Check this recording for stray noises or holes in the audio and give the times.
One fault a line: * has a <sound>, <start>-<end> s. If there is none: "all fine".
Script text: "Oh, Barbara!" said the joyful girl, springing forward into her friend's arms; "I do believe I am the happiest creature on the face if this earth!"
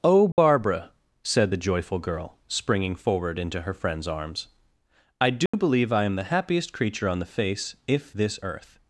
* has a dropout, 0.3-0.4 s
* has a dropout, 5.5-5.5 s